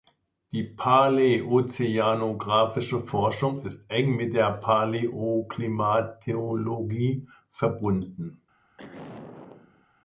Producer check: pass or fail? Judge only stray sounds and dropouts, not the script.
fail